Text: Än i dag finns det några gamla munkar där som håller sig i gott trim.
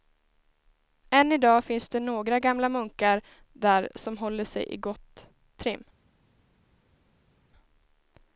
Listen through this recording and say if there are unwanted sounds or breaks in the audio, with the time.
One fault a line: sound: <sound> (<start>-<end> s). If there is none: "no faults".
no faults